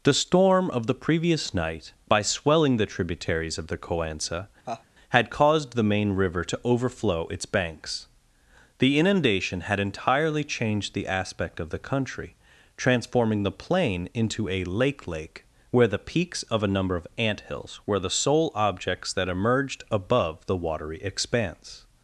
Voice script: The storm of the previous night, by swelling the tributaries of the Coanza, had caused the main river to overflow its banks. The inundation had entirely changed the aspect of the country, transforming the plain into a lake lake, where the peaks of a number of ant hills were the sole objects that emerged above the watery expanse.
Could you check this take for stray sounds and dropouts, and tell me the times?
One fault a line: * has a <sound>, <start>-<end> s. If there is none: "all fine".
* has a laugh, 4.7-4.9 s